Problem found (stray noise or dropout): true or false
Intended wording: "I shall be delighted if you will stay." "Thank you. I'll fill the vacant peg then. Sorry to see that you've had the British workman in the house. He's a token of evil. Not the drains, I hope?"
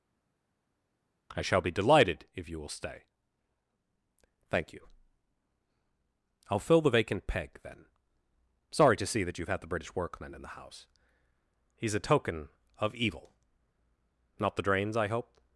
false